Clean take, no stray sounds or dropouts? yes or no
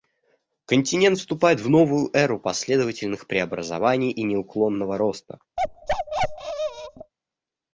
no